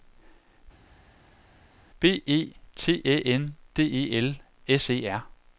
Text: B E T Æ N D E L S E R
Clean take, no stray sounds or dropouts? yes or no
yes